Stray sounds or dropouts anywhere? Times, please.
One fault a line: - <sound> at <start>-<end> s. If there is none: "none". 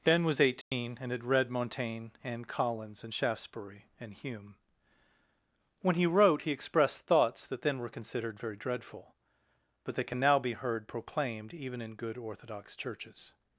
- dropout at 0.6-0.7 s